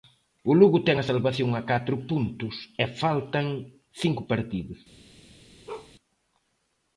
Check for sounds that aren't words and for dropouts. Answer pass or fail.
fail